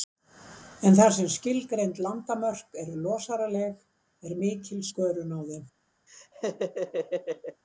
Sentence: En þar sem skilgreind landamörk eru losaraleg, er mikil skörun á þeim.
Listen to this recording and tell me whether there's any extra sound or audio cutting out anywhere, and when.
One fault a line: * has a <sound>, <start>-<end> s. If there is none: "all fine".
* has a laugh, 6.1-7.6 s